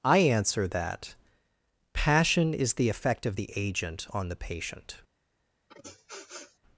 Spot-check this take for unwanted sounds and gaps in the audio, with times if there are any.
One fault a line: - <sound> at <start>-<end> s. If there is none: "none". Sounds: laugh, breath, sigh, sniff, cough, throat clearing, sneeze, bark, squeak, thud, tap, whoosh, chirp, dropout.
- sniff at 5.7-6.6 s